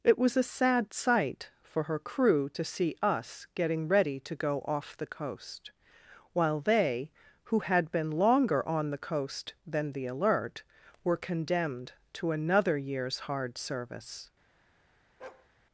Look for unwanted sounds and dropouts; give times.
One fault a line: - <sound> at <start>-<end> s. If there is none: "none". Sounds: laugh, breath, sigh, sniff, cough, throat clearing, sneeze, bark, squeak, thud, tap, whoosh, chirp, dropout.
- bark at 15.2-15.5 s